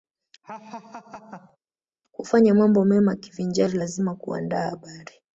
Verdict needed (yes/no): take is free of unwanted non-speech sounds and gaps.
no